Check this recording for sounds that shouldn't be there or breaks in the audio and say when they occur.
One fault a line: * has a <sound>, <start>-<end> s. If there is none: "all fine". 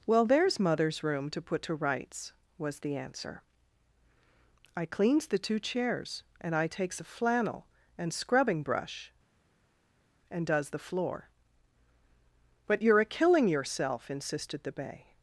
all fine